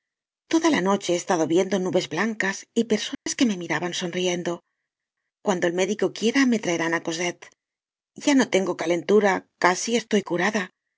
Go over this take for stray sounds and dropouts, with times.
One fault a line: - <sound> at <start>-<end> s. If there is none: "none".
- dropout at 3.1-3.3 s